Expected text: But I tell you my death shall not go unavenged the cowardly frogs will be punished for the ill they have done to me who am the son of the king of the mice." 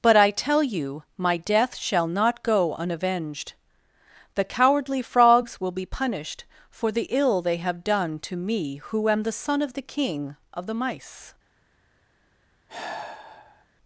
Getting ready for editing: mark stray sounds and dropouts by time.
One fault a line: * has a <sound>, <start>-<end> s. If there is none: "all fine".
* has a sigh, 12.7-13.7 s